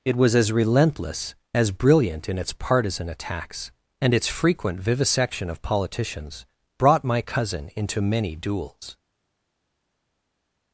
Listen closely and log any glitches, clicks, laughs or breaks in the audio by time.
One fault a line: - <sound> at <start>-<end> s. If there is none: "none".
none